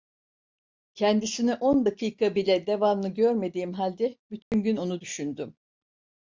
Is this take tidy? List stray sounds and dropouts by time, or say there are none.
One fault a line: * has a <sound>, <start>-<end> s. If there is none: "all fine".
* has a dropout, 4.4-4.5 s